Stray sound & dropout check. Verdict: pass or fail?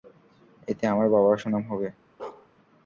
fail